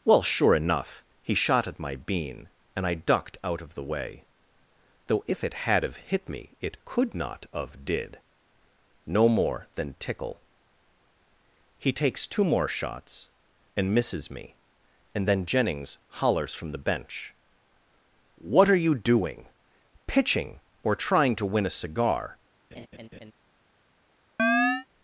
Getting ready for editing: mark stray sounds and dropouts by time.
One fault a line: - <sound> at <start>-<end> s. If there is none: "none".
- laugh at 22.7-23.3 s
- chirp at 24.4-24.9 s